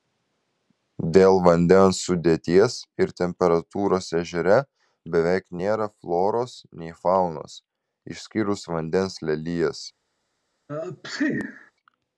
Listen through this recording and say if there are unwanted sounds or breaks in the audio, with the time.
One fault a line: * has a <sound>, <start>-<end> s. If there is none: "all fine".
* has a sneeze, 10.7-11.7 s